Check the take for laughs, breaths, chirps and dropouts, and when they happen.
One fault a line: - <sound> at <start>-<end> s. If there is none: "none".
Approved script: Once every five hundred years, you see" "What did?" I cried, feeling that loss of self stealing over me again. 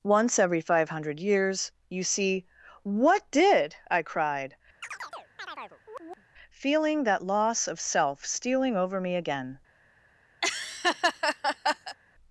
- chirp at 4.8-6.3 s
- laugh at 10.4-12.0 s